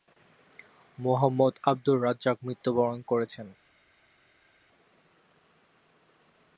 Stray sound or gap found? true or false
false